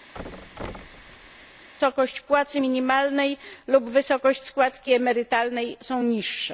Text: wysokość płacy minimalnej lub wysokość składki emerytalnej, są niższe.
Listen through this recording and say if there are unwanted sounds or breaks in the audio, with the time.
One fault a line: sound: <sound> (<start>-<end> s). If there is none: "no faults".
sound: thud (0.1-1.7 s)